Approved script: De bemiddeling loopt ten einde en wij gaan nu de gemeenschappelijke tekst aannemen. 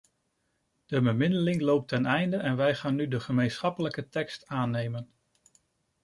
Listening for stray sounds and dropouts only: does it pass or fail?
pass